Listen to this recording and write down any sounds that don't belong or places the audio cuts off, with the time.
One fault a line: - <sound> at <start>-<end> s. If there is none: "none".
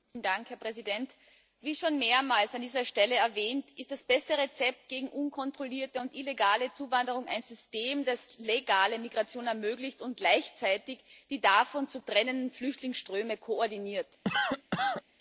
- cough at 14.2-15.0 s